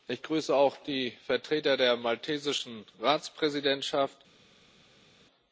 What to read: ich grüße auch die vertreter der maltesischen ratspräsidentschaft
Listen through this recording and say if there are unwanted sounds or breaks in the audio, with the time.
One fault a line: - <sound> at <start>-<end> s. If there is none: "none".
none